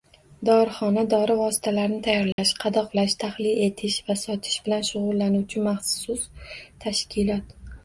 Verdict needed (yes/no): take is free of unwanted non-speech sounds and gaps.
no